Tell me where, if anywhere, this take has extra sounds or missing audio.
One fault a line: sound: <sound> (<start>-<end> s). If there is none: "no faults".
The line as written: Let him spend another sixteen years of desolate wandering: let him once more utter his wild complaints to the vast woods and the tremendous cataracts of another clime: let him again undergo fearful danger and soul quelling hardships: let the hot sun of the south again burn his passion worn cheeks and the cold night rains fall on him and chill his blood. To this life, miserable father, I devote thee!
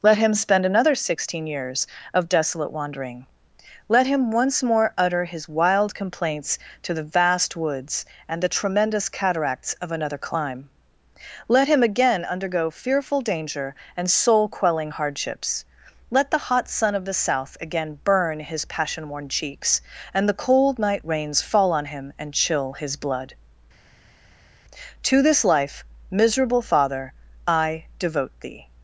no faults